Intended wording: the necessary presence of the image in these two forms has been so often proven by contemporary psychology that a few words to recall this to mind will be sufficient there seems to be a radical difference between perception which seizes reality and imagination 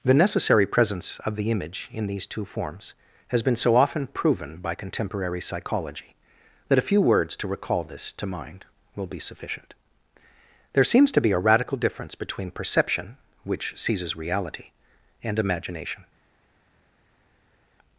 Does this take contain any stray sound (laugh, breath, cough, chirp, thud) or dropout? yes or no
no